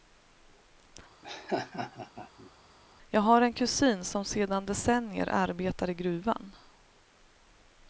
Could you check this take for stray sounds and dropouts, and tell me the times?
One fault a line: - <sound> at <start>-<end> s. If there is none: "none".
- laugh at 1.2-2.5 s